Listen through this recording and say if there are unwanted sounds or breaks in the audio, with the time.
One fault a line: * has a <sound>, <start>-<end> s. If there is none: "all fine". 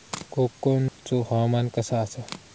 * has a dropout, 0.9-1.0 s